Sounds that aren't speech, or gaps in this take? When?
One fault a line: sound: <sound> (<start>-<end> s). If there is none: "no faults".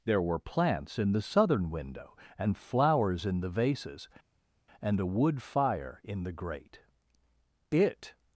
no faults